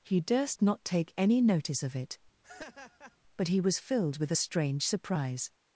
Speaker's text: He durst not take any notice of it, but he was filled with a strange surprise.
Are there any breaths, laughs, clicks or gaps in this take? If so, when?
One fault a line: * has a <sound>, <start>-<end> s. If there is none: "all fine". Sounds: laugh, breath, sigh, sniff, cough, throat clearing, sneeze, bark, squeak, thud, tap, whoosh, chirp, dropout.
* has a laugh, 2.4-3.2 s